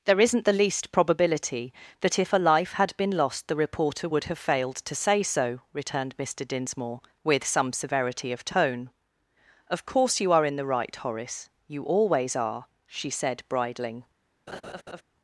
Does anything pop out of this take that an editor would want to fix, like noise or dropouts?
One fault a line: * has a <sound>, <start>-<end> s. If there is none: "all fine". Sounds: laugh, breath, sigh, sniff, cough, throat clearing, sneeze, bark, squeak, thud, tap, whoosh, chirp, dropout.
* has a laugh, 14.5-15.0 s